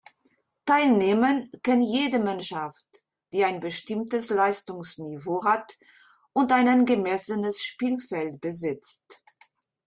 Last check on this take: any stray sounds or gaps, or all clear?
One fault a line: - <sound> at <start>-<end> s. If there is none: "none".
none